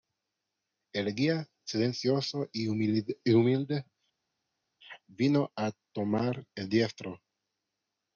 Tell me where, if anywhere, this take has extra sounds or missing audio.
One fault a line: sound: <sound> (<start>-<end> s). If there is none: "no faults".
no faults